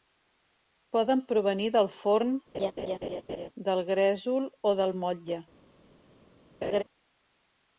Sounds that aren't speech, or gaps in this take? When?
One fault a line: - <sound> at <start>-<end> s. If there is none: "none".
- laugh at 2.5-3.5 s
- laugh at 6.6-6.8 s